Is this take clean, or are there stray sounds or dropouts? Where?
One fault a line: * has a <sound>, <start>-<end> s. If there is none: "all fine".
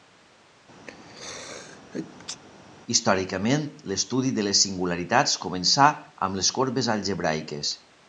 * has a sneeze, 0.9-2.4 s